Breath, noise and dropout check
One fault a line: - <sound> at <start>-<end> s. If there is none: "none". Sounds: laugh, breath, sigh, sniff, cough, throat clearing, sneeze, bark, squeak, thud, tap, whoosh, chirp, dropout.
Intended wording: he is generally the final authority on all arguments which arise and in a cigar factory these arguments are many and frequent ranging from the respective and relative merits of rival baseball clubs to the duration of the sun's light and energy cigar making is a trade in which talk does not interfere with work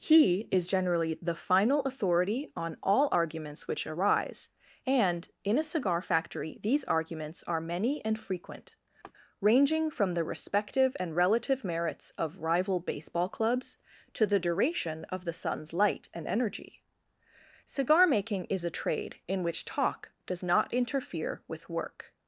- laugh at 9.0-9.1 s